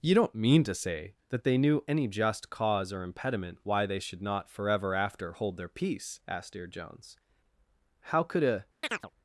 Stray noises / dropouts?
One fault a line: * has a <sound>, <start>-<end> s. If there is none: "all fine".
* has a chirp, 8.8-9.1 s